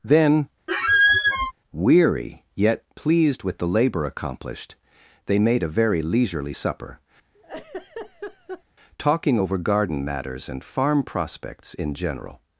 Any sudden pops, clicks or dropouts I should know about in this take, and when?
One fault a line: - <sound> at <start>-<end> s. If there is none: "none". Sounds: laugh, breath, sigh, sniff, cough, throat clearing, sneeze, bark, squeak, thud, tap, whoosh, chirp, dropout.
- squeak at 0.7-1.5 s
- laugh at 7.3-8.6 s